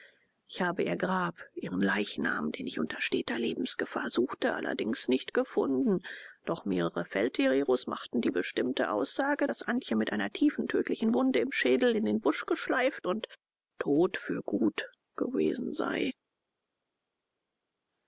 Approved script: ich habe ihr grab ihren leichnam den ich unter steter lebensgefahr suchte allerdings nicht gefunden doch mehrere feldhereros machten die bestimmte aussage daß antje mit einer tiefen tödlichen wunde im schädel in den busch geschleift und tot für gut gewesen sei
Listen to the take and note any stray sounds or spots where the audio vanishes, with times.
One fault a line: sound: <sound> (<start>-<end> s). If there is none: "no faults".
no faults